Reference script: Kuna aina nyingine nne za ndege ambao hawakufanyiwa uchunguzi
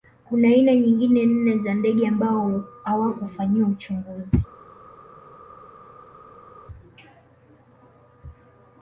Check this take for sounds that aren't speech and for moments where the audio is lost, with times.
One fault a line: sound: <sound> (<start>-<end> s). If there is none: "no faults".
no faults